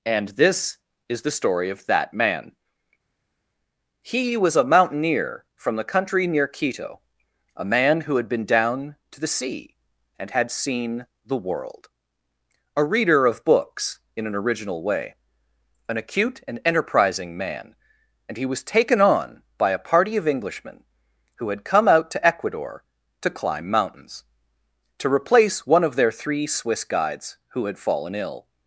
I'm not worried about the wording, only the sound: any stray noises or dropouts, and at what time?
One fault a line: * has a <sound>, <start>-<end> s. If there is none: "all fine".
all fine